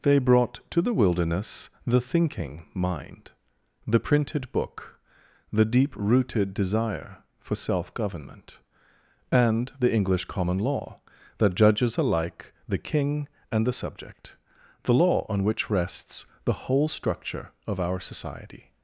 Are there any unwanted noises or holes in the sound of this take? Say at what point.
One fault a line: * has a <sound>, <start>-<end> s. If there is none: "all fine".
all fine